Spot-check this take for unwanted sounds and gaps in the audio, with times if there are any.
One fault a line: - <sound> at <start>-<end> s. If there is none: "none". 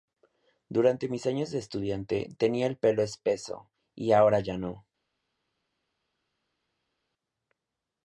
none